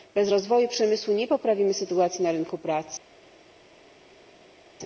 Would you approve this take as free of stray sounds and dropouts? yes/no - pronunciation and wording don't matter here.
yes